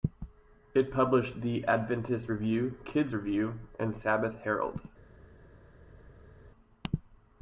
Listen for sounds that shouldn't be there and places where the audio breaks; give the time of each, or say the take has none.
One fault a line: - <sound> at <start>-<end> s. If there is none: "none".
none